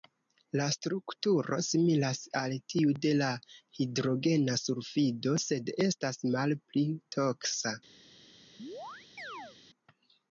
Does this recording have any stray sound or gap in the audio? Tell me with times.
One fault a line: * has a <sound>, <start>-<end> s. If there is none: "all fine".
* has a chirp, 8.6-9.6 s